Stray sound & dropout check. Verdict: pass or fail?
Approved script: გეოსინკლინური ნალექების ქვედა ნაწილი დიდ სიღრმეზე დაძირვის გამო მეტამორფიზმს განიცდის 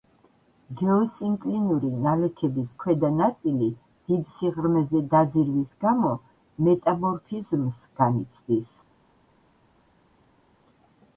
pass